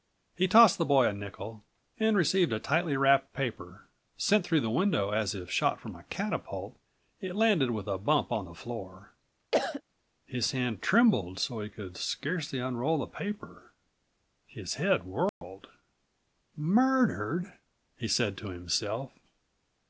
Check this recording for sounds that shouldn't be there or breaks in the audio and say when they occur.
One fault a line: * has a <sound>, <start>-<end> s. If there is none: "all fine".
* has a cough, 9.5-9.8 s
* has a dropout, 15.3-15.4 s